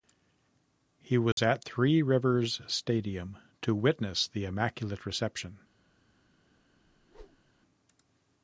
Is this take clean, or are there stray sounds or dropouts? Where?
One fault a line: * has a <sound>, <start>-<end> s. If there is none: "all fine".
* has a dropout, 1.3-1.4 s
* has a whoosh, 6.9-7.5 s